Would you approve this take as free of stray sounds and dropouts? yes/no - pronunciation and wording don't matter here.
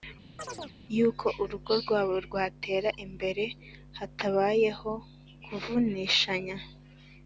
no